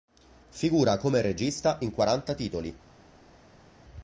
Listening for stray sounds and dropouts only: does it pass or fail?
pass